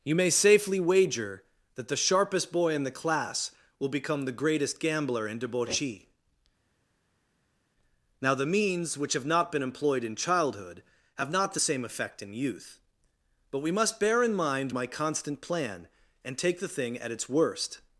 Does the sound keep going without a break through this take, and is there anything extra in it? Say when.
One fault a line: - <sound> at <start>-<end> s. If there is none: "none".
none